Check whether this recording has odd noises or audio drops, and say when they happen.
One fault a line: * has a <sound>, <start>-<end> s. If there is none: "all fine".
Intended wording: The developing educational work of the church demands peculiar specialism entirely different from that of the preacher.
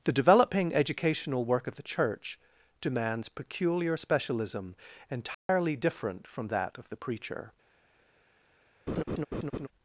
* has a dropout, 5.3-5.5 s
* has a laugh, 8.9-9.7 s